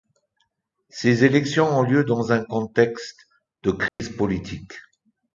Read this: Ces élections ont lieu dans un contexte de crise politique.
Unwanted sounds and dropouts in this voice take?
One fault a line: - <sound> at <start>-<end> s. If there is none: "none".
- dropout at 3.9-4.0 s